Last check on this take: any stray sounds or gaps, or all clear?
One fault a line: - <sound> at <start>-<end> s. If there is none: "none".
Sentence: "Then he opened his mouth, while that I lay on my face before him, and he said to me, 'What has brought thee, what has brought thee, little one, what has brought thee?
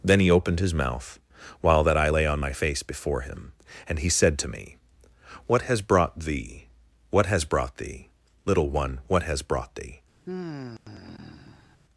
- sigh at 10.3-11.8 s